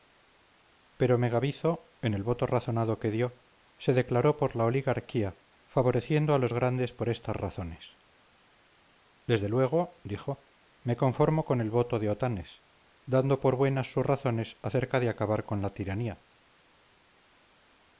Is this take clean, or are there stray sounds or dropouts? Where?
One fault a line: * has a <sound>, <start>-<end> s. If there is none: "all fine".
all fine